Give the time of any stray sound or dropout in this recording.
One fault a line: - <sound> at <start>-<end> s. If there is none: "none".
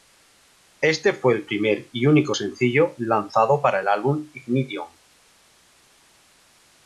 none